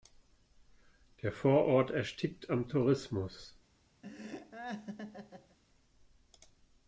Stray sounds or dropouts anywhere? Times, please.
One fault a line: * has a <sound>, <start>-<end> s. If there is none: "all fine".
* has a laugh, 4.0-5.6 s